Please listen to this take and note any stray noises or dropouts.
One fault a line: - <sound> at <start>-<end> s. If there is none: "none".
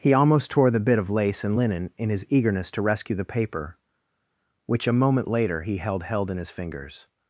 none